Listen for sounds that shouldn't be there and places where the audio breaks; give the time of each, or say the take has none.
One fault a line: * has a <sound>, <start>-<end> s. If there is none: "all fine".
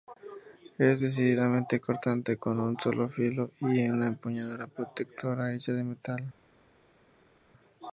all fine